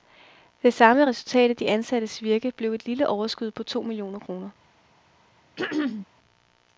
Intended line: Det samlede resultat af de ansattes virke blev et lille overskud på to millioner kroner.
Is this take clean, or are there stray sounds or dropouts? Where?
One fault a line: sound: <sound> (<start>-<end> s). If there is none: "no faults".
sound: throat clearing (5.6-6.1 s)